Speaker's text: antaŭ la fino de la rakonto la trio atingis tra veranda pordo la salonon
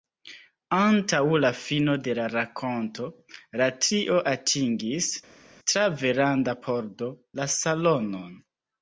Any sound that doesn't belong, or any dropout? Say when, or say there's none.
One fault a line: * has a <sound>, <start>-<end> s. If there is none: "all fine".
all fine